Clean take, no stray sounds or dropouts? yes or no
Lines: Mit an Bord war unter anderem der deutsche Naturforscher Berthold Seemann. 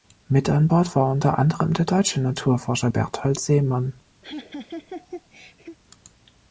no